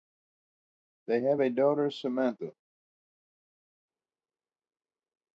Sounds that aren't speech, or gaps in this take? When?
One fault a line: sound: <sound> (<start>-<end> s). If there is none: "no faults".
no faults